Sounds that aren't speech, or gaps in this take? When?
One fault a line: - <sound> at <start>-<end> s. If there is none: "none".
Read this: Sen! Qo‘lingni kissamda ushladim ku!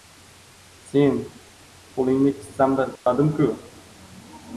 - dropout at 3.0-3.1 s